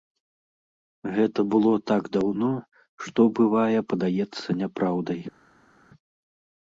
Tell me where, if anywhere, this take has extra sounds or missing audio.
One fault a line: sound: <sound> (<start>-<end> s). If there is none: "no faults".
no faults